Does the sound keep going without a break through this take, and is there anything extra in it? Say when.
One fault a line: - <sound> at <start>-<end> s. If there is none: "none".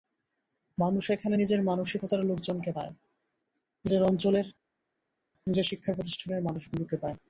none